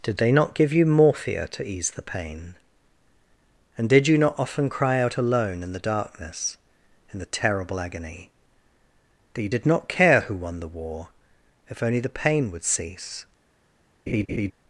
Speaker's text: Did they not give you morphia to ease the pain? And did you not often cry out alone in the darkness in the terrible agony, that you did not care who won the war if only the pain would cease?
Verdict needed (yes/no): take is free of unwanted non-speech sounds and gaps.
no